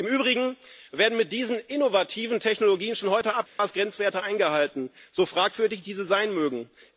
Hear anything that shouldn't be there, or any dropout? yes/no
yes